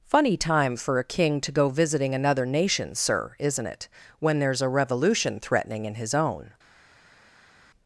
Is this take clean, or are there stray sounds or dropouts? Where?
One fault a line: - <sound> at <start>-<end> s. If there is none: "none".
none